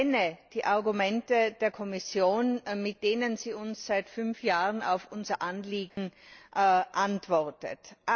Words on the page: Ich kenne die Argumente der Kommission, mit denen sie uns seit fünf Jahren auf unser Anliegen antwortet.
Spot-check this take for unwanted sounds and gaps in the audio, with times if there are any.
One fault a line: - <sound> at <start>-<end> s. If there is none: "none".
- dropout at 5.9-6.0 s